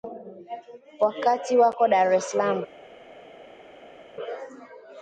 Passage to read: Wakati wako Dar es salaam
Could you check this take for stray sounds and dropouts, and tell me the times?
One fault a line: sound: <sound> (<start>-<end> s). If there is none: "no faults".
no faults